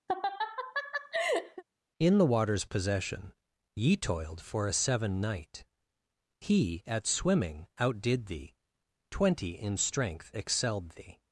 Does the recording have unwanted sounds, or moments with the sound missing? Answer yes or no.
yes